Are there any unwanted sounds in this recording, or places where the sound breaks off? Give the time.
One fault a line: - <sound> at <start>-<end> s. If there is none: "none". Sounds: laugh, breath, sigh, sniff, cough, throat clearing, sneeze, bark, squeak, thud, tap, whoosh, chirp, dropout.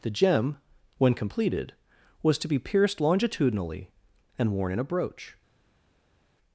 none